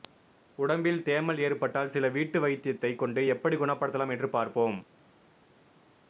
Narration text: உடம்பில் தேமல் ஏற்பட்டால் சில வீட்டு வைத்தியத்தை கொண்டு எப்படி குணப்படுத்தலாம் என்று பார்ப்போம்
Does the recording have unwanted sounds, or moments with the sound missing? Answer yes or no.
no